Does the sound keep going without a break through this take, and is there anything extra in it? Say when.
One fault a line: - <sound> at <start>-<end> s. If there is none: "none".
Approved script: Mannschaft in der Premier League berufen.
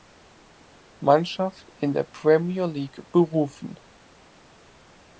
none